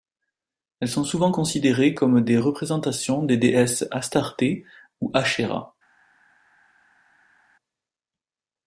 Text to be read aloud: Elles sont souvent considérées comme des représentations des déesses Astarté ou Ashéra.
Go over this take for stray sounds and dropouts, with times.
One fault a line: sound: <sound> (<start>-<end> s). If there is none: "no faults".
no faults